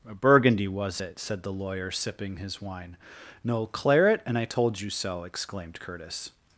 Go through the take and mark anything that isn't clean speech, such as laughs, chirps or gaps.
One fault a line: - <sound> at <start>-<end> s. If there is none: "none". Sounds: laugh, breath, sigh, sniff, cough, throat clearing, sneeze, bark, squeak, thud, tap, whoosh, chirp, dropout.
none